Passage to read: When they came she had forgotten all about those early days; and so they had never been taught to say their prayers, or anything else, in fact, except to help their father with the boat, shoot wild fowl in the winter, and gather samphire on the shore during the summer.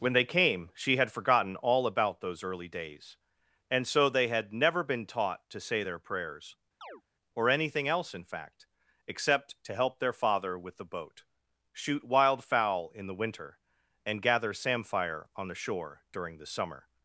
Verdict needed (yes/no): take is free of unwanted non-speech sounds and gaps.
no